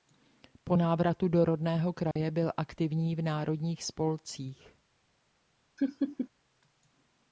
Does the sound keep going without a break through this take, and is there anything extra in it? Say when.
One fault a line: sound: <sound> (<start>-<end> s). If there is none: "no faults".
sound: dropout (2.1-2.2 s)
sound: laugh (5.8-6.3 s)